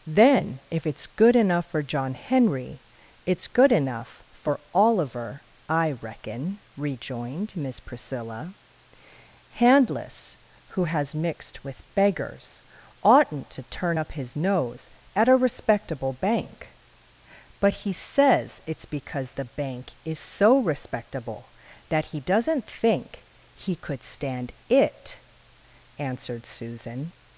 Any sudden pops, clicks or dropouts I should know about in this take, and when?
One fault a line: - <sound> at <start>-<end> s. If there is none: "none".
none